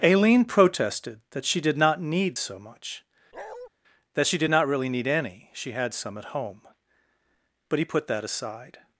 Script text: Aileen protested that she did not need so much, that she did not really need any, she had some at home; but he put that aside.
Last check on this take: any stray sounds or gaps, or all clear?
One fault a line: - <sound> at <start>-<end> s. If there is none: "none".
- bark at 3.3-3.7 s